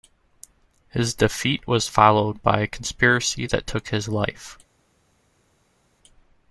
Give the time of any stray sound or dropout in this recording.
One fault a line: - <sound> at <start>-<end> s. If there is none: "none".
none